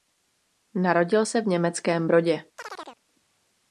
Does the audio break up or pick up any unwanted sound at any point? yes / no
yes